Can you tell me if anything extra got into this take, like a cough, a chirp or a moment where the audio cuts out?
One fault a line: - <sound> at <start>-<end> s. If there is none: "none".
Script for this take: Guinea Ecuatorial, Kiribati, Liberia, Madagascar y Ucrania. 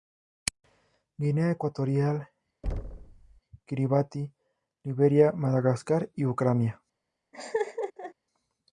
- thud at 2.6-3.4 s
- laugh at 7.3-8.1 s